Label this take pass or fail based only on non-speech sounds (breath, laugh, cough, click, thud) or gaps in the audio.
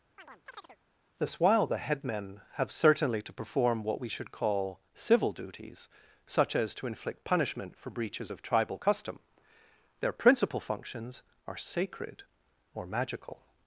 fail